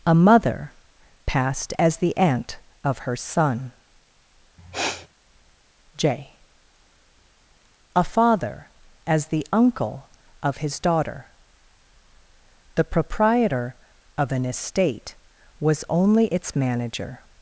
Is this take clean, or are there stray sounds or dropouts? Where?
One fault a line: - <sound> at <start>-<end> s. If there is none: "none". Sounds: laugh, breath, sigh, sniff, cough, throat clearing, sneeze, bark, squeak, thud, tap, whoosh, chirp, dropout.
- sniff at 4.6-5.1 s